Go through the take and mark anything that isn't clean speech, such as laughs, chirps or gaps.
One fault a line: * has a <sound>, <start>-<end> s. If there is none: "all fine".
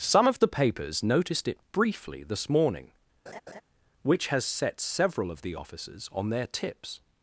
* has a laugh, 3.3-3.6 s